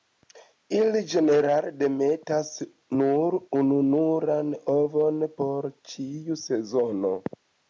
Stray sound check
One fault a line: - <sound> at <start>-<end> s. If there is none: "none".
none